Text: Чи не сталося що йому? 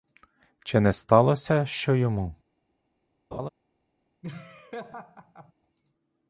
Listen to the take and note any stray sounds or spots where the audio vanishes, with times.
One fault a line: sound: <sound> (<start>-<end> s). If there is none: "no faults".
sound: laugh (3.3-3.5 s)
sound: laugh (4.2-5.5 s)